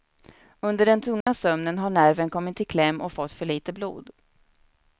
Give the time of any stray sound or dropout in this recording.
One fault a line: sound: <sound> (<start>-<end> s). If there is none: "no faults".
sound: dropout (1.2-1.3 s)